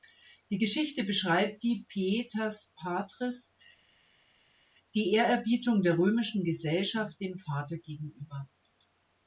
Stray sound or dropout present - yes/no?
no